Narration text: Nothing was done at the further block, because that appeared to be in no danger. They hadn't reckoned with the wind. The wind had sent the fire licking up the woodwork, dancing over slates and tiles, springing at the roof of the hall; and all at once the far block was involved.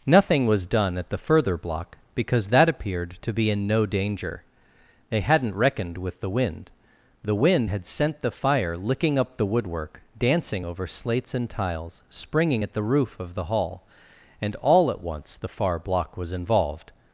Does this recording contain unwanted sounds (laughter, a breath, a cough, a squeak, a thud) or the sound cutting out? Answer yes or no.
no